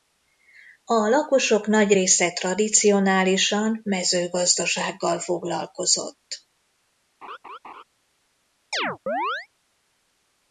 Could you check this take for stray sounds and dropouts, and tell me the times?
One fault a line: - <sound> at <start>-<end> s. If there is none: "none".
- laugh at 7.2-7.8 s
- chirp at 8.7-9.5 s